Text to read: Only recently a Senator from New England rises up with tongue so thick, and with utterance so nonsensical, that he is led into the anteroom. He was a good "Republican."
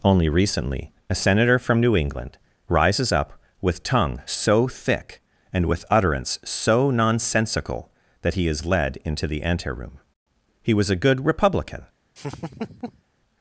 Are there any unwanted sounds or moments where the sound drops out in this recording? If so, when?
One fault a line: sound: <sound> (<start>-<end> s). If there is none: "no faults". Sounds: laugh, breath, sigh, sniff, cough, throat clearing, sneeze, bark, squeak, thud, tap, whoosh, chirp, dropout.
sound: laugh (12.2-13.0 s)